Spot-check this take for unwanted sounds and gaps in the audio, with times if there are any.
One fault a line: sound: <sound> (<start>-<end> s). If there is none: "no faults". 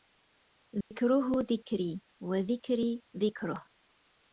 sound: dropout (0.8-0.9 s)